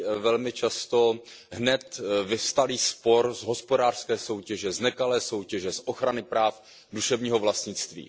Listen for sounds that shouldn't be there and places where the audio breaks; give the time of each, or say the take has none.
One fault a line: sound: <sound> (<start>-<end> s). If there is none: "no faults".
no faults